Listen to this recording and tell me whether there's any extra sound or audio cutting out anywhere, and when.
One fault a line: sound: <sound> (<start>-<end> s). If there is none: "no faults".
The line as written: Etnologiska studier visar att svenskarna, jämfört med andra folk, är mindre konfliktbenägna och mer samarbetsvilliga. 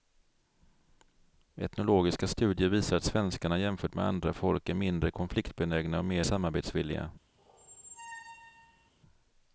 sound: squeak (7.4-8.9 s)